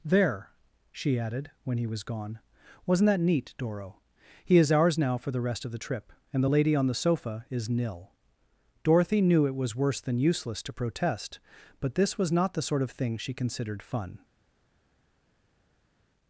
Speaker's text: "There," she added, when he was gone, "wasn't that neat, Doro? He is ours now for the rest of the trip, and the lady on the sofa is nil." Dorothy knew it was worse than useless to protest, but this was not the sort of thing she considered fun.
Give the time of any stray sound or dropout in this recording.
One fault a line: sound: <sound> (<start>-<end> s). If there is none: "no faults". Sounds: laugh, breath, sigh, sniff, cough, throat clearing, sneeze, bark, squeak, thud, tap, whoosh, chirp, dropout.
no faults